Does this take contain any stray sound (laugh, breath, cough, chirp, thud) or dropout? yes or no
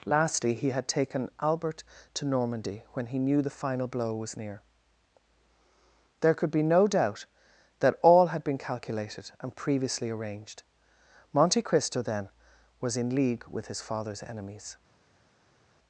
no